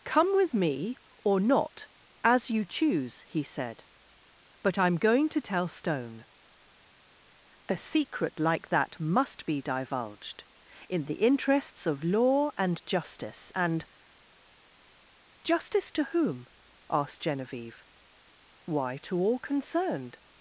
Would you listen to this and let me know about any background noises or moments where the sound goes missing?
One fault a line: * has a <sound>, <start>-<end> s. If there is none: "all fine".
all fine